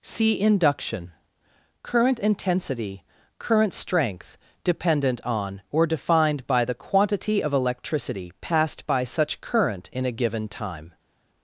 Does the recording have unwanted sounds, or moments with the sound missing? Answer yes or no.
no